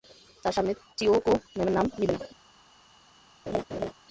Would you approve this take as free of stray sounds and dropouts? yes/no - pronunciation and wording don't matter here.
no